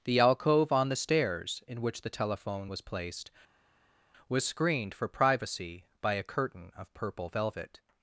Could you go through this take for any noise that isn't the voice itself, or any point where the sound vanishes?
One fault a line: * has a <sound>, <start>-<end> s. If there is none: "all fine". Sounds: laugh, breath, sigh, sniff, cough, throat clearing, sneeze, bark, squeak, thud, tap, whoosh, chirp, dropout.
all fine